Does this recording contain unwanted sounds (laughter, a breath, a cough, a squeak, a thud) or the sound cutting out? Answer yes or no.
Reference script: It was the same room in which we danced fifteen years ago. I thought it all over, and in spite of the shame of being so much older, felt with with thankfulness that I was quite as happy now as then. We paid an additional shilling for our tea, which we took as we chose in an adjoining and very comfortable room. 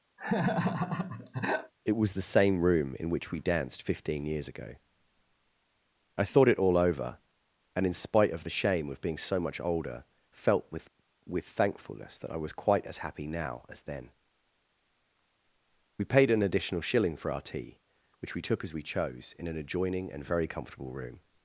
yes